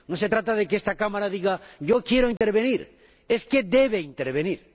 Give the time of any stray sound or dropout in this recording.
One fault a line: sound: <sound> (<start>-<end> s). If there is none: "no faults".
sound: dropout (2.4-2.4 s)